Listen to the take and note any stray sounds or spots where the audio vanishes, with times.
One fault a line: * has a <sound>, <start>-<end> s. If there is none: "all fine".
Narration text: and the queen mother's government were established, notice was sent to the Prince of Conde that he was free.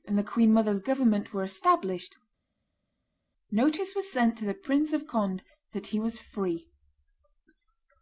all fine